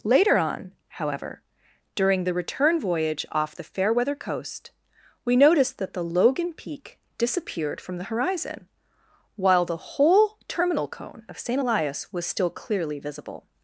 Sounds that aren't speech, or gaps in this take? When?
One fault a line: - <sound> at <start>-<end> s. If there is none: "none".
none